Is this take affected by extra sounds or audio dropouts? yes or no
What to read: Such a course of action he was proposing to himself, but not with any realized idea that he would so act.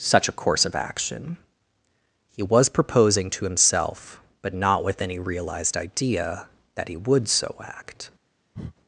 yes